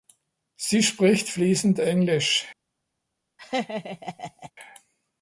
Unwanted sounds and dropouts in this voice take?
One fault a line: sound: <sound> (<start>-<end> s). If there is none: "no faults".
sound: laugh (3.4-4.5 s)